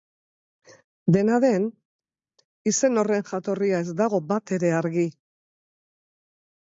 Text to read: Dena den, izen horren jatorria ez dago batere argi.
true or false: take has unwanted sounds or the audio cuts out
false